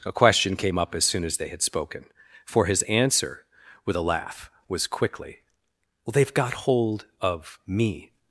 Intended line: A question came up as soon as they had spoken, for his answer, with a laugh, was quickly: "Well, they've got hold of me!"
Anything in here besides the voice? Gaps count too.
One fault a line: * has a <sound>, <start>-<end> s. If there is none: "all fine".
all fine